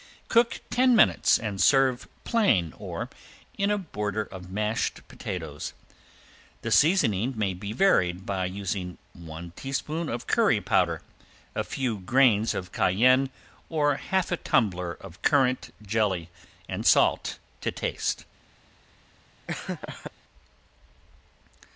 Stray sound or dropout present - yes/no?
yes